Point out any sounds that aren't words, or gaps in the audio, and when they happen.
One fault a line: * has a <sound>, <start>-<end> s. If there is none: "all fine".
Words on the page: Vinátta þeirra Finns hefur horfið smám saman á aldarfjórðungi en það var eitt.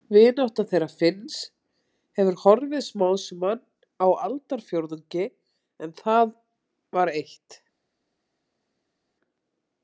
all fine